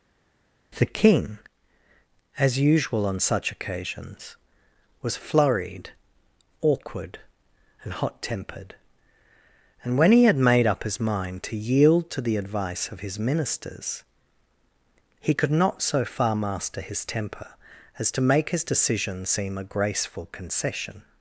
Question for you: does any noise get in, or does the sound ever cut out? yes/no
no